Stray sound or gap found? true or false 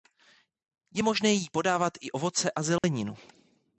true